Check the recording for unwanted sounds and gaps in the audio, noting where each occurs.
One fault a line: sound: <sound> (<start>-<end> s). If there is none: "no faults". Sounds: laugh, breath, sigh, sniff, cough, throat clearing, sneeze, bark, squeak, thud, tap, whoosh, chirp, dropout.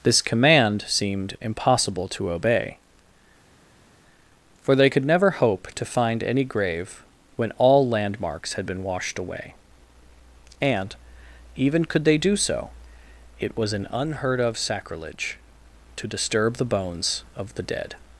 no faults